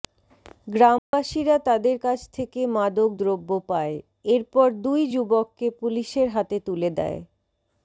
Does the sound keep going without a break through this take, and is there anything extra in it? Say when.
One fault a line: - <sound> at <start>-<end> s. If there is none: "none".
- dropout at 1.0-1.1 s